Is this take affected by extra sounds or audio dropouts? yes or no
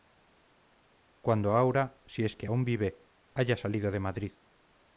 no